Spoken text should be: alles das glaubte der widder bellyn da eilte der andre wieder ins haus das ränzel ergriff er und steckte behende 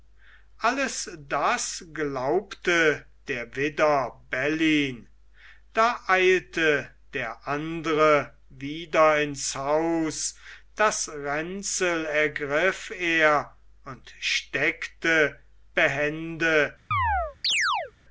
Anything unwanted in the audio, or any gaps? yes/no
yes